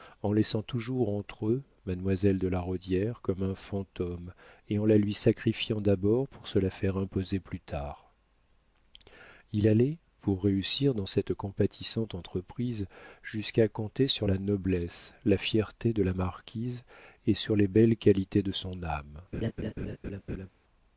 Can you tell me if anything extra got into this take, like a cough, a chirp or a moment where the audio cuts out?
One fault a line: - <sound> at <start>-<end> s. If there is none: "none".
- laugh at 19.3-20.5 s